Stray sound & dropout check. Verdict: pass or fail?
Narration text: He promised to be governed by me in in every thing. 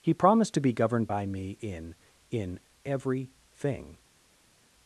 pass